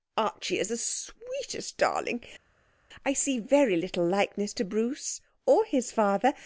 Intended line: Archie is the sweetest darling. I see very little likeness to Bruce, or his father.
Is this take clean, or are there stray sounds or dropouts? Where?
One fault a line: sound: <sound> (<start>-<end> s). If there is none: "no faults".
no faults